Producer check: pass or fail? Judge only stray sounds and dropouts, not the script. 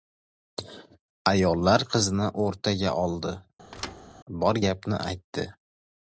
fail